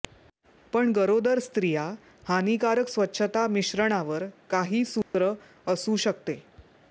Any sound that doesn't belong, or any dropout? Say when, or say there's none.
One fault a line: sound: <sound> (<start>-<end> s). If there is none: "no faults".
sound: dropout (5.0-5.1 s)